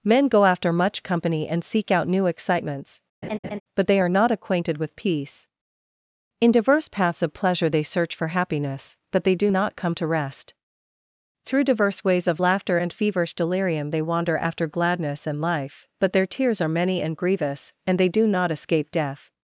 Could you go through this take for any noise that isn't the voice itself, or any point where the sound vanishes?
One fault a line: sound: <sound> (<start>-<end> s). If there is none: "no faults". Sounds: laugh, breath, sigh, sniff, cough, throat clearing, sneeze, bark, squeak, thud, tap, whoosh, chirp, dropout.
sound: laugh (3.2-3.6 s)